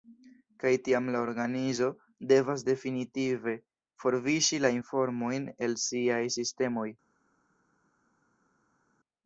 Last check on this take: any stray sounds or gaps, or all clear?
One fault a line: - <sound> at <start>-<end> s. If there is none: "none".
none